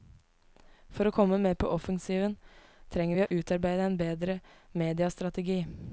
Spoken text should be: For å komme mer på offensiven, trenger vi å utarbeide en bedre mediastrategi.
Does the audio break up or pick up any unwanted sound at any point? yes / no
yes